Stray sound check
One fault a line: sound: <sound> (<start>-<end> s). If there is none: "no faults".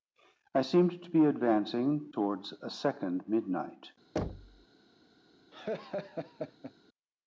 sound: thud (4.2-4.7 s)
sound: laugh (5.5-6.7 s)